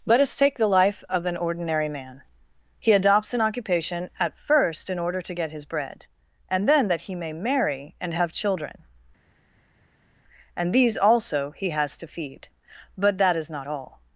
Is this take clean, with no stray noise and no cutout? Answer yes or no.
yes